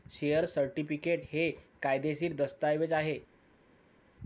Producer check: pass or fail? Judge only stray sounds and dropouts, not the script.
pass